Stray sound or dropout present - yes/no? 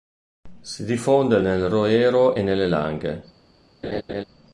yes